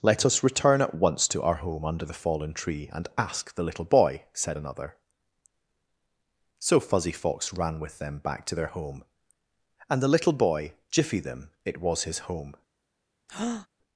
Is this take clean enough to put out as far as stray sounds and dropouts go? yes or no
no